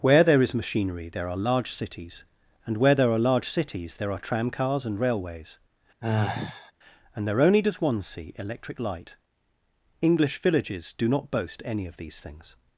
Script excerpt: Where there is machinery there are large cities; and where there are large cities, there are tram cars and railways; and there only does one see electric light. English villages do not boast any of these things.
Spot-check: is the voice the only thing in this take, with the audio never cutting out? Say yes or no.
no